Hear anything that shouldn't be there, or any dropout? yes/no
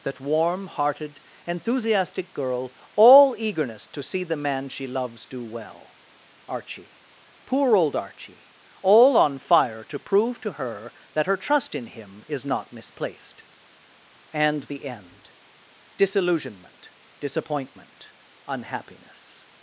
no